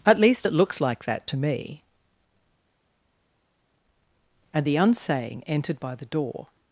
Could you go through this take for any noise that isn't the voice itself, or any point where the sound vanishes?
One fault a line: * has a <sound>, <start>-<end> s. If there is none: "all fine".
all fine